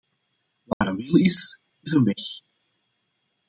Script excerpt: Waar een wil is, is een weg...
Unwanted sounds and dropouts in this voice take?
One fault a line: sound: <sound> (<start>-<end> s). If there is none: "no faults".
sound: dropout (0.7-0.8 s)